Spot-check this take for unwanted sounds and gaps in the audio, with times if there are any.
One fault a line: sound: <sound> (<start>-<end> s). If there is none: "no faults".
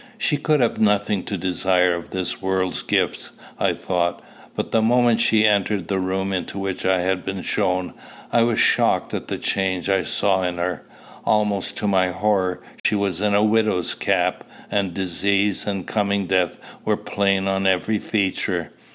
sound: dropout (12.8-12.8 s)